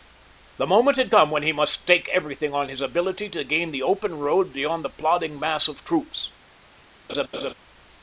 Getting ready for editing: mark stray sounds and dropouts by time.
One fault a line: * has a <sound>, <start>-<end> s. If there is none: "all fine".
* has a laugh, 7.1-7.5 s